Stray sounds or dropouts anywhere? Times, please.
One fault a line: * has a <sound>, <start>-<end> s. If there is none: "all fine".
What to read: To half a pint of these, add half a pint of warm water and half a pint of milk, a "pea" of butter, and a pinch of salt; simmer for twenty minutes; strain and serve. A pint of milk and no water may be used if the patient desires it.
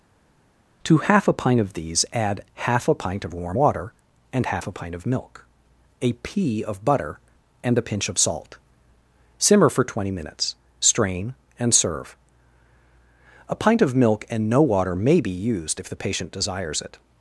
all fine